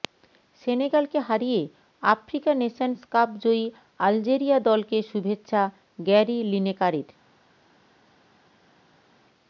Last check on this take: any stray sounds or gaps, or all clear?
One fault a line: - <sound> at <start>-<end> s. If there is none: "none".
none